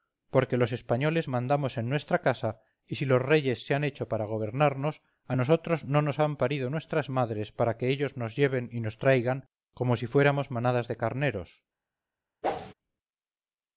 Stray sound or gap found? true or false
true